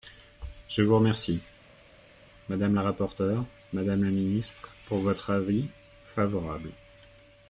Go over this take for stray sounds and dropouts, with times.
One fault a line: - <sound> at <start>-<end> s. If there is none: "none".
none